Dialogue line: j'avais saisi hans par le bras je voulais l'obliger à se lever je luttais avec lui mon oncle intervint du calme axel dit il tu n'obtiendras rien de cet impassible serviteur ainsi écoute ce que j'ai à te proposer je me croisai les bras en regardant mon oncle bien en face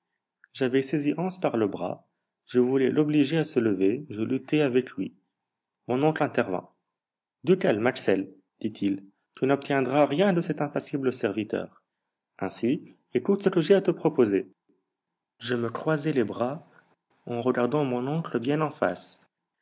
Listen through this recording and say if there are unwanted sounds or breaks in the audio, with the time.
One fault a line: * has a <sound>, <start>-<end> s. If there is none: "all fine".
all fine